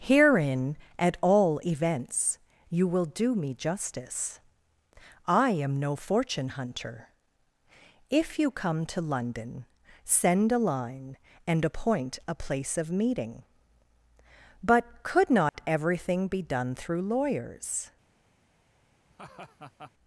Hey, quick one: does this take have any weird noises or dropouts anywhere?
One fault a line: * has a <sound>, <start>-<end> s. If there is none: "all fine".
* has a dropout, 15.5-15.5 s
* has a laugh, 19.1-19.9 s